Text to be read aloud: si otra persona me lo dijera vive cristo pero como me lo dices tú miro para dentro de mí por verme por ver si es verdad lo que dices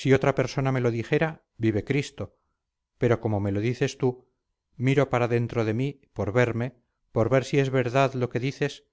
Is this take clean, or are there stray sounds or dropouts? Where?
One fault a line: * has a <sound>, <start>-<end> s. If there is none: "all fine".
all fine